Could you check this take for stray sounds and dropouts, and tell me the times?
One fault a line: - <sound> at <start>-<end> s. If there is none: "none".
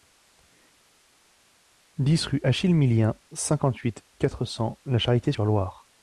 none